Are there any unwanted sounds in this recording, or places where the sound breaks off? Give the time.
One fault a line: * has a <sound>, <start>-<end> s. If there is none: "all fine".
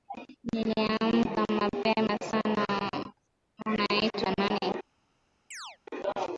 * has a chirp, 5.5-5.8 s